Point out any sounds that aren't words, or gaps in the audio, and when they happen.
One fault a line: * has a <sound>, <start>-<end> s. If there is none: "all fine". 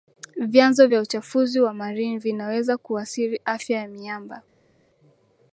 all fine